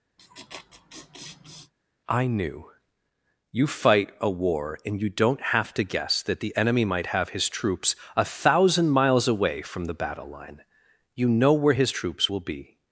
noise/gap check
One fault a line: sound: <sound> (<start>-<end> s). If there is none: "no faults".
sound: laugh (0.2-1.7 s)